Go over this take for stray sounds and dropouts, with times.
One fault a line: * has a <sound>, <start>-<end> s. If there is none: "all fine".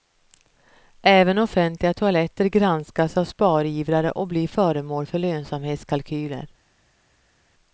all fine